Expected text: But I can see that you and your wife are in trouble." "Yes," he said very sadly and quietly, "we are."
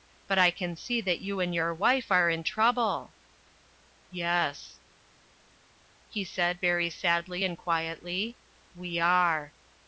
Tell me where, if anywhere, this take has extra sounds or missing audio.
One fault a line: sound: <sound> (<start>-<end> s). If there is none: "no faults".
no faults